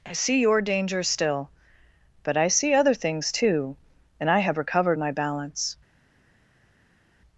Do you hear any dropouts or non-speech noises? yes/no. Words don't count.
no